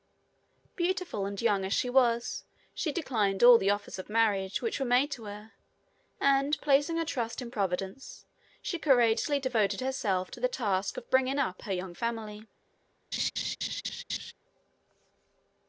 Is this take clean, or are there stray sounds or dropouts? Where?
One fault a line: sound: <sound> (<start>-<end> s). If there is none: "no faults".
sound: laugh (13.1-14.3 s)